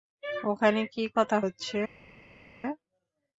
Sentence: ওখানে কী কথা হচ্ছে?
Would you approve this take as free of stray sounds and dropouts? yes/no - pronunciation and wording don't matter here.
yes